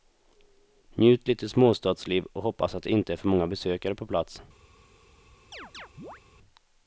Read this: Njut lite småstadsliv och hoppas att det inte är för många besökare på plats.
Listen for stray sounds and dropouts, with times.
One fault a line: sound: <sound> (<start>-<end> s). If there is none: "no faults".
sound: chirp (5.5-6.2 s)